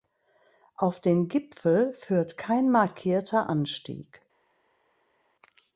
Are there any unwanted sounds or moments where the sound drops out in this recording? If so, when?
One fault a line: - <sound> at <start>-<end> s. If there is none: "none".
none